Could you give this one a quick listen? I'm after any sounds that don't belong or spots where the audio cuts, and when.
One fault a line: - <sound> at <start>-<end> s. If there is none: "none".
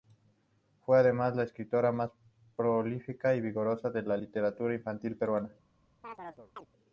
- chirp at 6.0-6.7 s